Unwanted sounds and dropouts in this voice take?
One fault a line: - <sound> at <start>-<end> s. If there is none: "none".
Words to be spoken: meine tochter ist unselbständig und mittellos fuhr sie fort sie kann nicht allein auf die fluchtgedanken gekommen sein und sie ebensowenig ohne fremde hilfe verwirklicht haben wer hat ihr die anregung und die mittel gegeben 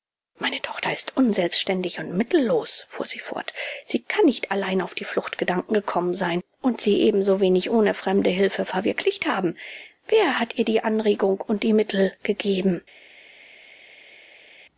none